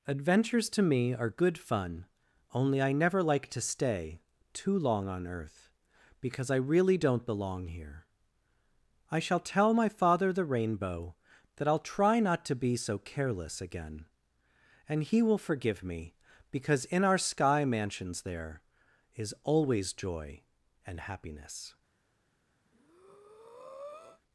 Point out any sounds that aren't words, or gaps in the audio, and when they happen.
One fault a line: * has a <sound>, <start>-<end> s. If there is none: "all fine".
* has a breath, 22.7-24.2 s